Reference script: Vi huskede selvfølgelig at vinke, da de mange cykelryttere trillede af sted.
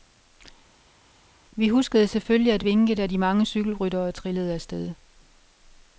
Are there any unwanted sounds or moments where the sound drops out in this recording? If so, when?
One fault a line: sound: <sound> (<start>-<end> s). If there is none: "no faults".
no faults